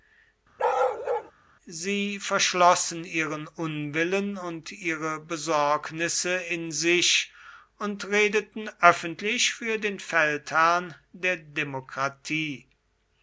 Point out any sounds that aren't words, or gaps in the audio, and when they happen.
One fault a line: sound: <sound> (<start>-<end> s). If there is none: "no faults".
sound: bark (0.6-1.3 s)